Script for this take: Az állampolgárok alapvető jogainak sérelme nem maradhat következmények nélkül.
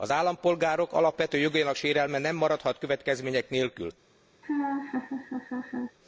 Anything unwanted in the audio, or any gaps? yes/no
yes